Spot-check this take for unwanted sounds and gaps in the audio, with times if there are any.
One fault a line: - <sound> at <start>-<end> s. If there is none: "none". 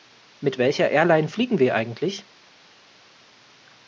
none